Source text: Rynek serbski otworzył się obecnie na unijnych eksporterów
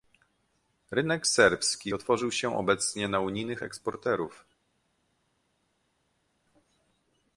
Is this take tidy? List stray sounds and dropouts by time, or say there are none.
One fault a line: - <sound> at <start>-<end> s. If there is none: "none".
none